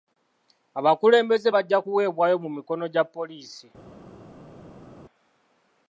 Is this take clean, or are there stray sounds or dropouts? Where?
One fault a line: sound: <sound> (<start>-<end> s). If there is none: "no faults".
no faults